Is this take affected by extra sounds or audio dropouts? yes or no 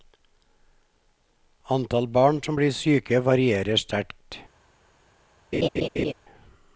yes